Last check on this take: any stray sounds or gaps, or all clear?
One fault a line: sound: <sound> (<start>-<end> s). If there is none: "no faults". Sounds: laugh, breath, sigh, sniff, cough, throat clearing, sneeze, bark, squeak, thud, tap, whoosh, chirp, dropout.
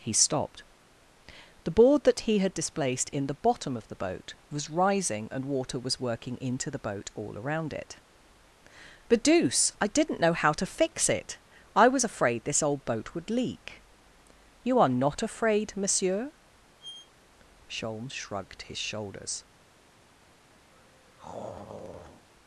sound: squeak (16.8-17.1 s)
sound: throat clearing (20.7-22.3 s)